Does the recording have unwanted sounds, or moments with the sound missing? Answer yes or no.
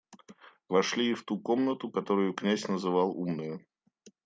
no